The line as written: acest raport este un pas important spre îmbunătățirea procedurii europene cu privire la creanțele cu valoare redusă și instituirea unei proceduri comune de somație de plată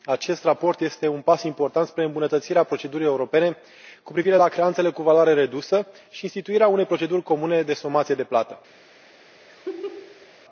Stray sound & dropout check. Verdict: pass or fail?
fail